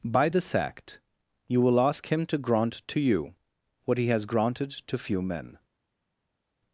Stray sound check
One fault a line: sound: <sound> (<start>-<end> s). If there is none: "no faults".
no faults